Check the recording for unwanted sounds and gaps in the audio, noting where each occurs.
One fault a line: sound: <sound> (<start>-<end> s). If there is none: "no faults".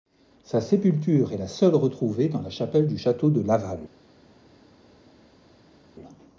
no faults